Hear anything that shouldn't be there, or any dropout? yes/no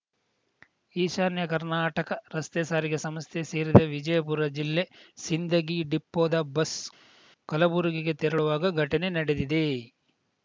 no